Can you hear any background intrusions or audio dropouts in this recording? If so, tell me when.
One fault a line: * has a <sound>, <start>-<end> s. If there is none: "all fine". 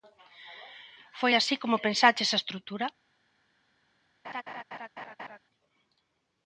* has a laugh, 4.2-5.4 s